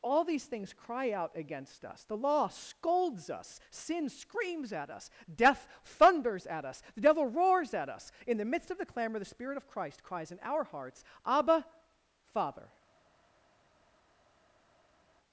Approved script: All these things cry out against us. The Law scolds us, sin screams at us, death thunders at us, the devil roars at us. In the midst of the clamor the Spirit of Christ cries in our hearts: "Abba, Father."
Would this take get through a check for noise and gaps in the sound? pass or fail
pass